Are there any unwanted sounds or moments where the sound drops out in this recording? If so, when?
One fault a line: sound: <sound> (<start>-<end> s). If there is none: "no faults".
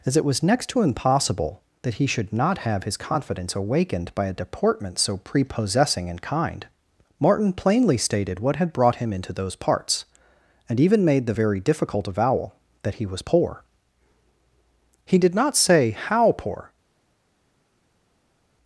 no faults